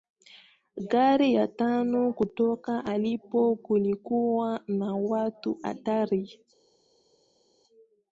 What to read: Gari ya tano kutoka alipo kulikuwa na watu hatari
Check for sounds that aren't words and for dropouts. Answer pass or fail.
pass